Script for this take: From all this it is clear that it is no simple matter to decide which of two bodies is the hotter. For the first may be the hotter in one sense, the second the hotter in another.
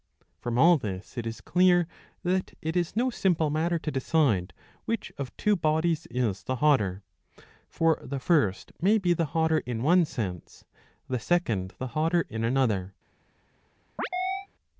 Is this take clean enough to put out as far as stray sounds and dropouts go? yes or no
no